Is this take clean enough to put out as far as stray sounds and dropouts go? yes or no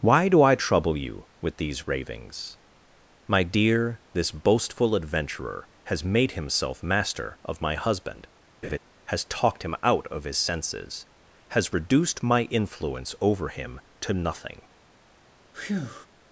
no